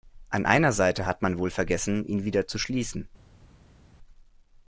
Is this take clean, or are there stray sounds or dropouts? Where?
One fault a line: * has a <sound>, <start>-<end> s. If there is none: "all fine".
all fine